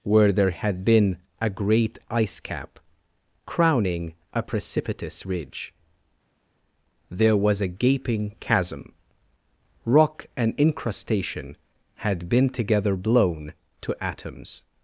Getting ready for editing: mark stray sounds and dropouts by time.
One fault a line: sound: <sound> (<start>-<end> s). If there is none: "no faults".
no faults